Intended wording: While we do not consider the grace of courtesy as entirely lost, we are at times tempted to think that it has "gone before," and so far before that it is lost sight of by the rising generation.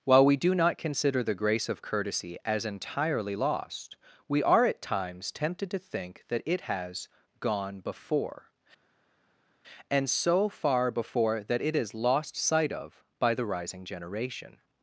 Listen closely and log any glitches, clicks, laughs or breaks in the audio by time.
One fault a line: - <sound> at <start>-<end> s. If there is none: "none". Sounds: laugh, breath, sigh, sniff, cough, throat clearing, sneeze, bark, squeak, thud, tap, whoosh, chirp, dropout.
none